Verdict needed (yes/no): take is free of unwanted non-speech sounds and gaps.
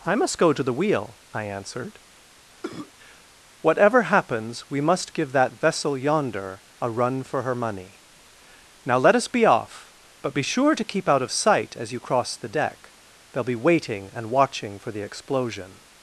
no